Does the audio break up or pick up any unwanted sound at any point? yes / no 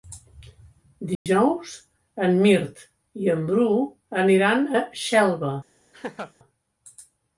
yes